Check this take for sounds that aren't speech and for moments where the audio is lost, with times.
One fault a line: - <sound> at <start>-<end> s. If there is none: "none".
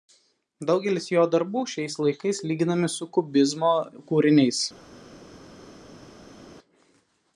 none